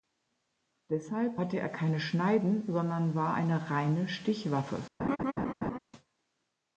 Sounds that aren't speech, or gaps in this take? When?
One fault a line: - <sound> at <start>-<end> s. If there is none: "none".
- laugh at 5.0-5.8 s